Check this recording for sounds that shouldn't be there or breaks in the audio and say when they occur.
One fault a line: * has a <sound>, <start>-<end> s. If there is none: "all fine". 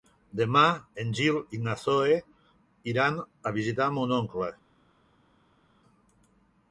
all fine